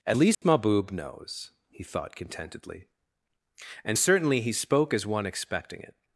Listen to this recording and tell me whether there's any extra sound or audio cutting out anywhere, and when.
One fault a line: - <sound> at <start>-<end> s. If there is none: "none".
- dropout at 0.3-0.4 s